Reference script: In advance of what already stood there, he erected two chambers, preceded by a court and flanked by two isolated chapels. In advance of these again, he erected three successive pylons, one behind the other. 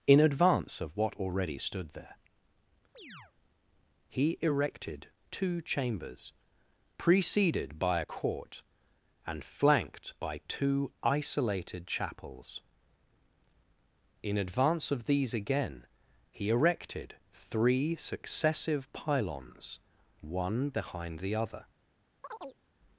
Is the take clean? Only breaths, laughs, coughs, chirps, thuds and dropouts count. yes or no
no